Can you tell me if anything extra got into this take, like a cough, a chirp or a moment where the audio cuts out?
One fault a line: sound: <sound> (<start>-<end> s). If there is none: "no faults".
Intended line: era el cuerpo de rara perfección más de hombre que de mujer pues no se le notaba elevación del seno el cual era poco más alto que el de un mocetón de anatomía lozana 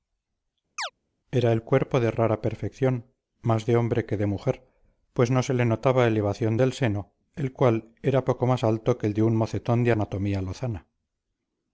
sound: chirp (0.8-0.9 s)